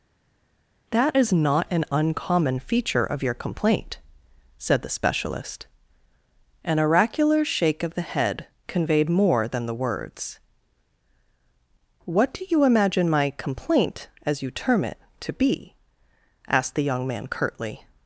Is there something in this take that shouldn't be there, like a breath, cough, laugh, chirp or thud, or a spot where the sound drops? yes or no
no